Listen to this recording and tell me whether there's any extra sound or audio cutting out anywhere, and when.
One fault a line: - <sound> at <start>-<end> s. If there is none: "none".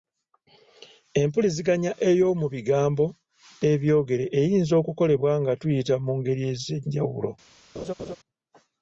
- laugh at 7.7-8.2 s